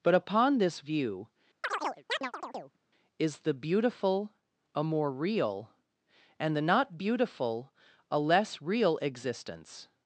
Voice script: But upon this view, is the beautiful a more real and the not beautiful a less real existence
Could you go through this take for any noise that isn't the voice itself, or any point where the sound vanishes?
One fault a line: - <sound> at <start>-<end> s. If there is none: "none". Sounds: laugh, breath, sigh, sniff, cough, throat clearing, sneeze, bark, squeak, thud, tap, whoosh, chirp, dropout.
- chirp at 1.6-2.8 s